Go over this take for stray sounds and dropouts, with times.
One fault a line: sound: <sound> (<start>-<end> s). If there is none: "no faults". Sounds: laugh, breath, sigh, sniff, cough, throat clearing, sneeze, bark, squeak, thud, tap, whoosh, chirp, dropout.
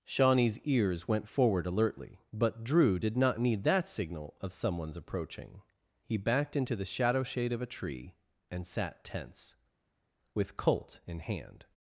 no faults